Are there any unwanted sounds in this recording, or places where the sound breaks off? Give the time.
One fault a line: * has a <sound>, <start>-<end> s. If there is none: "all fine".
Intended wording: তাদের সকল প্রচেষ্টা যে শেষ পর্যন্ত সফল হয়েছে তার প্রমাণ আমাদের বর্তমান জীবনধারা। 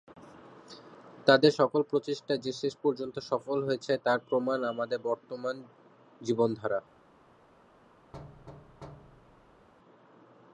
* has a thud, 8.1-9.7 s